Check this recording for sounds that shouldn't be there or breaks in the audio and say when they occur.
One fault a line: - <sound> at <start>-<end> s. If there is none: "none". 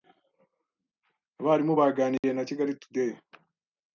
- dropout at 2.2-2.2 s